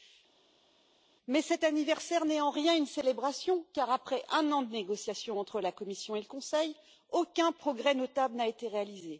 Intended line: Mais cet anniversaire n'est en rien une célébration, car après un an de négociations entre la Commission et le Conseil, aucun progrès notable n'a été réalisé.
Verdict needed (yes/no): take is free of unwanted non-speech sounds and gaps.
yes